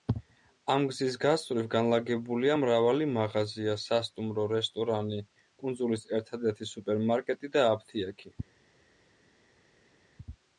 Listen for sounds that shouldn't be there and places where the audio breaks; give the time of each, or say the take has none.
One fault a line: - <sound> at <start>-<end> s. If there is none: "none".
none